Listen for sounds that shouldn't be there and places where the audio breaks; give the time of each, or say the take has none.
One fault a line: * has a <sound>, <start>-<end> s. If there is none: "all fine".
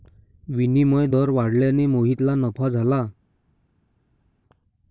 all fine